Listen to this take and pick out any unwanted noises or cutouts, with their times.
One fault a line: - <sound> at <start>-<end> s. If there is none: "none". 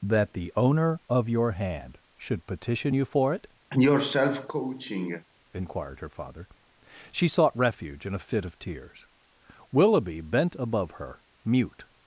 - cough at 3.7-5.3 s